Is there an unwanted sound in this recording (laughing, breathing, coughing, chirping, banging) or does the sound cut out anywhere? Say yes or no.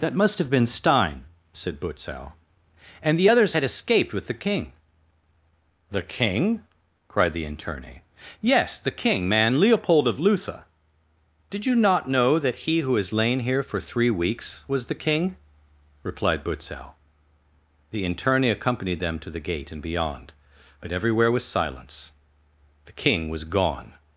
no